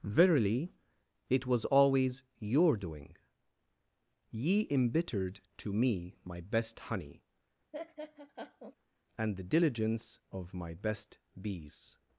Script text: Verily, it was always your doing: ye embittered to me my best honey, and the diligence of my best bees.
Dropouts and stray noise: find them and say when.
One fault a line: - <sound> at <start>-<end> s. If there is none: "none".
- laugh at 7.7-8.8 s